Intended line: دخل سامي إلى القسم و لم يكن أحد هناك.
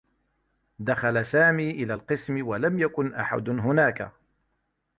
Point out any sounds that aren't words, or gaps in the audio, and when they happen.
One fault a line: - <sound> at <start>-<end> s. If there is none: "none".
none